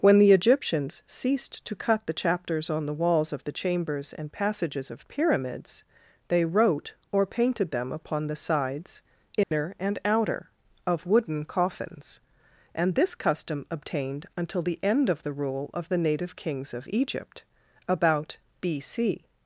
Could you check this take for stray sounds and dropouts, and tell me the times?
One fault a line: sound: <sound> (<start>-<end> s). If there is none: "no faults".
sound: dropout (9.4-9.5 s)